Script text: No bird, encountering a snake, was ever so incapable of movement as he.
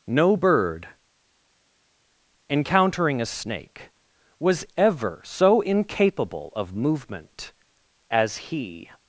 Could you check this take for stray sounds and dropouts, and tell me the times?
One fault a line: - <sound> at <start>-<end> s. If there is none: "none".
none